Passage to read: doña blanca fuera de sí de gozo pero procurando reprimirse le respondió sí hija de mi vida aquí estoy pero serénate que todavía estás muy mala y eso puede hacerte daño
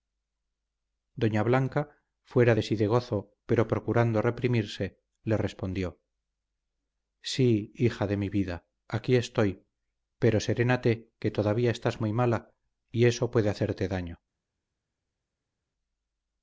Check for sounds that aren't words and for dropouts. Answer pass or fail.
pass